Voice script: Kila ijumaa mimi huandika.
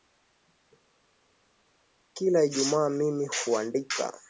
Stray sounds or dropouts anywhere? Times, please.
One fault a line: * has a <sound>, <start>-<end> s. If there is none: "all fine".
all fine